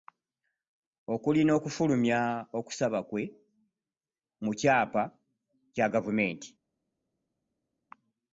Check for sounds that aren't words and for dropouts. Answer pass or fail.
pass